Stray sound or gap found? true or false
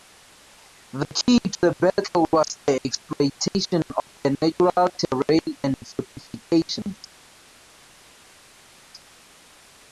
false